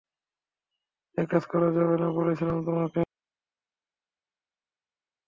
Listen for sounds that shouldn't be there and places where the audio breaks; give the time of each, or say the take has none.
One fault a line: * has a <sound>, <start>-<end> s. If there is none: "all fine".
all fine